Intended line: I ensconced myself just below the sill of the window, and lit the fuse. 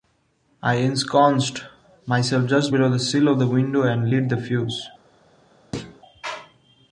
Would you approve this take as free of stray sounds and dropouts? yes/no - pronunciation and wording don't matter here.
no